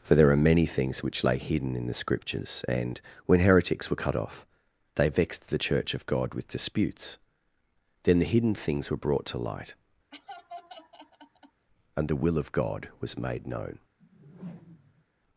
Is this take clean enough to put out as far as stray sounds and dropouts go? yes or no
no